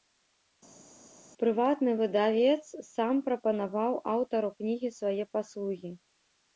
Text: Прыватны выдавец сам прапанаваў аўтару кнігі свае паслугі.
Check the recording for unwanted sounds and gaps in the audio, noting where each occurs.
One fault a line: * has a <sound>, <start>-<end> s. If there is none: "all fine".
all fine